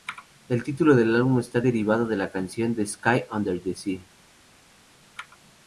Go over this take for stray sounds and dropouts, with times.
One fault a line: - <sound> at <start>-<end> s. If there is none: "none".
none